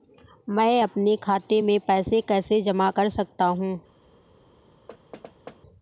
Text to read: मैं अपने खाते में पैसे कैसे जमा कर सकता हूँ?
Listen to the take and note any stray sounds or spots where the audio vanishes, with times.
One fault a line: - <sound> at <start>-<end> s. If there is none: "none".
- thud at 4.9-5.6 s